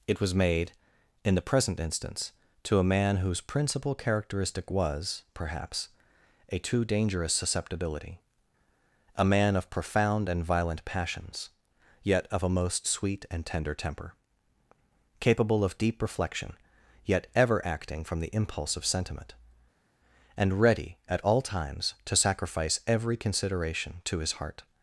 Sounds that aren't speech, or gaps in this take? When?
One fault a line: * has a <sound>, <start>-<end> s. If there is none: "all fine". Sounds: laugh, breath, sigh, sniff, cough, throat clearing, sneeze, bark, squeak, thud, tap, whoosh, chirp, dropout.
all fine